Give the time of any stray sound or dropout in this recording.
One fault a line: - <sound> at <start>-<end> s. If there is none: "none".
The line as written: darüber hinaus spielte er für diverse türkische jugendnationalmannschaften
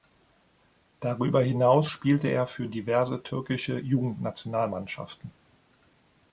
none